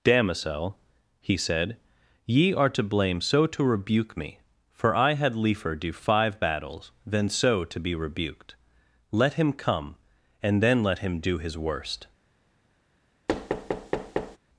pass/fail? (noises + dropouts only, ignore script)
fail